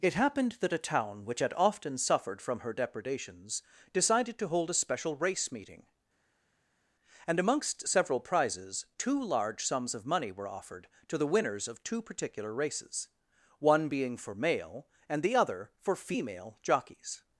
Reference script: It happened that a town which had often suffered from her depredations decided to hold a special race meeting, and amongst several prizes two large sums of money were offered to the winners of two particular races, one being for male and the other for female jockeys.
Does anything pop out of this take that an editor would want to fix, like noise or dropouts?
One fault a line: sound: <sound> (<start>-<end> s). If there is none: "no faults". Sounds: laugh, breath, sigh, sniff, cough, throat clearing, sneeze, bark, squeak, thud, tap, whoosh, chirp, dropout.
no faults